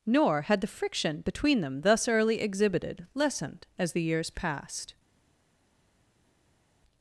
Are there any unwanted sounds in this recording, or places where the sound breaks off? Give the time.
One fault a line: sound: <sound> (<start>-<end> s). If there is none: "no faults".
no faults